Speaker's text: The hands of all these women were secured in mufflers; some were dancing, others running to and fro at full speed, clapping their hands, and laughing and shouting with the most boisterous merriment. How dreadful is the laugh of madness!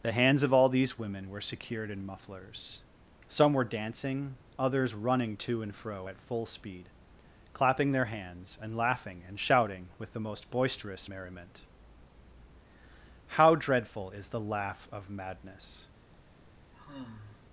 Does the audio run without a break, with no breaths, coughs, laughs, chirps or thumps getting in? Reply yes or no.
no